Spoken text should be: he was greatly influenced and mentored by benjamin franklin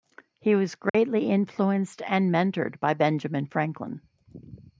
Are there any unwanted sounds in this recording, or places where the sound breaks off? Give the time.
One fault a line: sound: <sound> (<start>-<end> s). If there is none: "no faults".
sound: dropout (0.9-0.9 s)